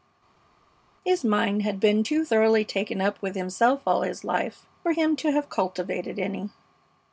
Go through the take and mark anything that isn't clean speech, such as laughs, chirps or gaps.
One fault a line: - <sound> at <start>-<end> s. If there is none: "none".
none